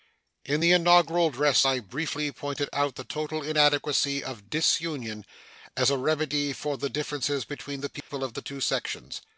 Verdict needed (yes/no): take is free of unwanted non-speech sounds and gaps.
no